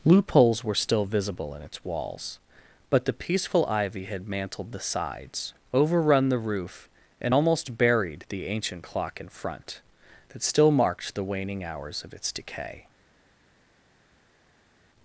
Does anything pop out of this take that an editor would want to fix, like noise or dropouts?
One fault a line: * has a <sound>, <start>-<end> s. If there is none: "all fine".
all fine